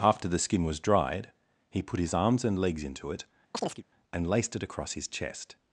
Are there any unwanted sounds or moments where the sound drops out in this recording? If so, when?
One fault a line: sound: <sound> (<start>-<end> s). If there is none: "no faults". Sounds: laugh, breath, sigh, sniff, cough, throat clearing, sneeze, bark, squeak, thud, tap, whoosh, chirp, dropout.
sound: chirp (3.5-3.8 s)